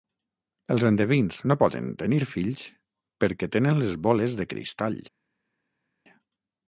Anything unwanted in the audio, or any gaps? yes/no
no